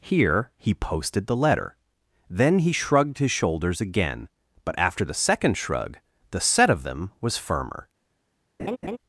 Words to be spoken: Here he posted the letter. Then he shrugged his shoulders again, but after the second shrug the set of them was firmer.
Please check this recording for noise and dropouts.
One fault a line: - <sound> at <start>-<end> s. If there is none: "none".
- laugh at 8.6-9.0 s